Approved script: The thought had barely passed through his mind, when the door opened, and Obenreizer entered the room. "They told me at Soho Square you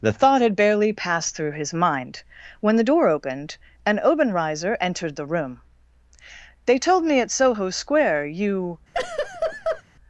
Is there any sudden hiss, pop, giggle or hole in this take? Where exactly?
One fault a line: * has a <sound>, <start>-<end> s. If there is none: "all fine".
* has a laugh, 8.9-9.8 s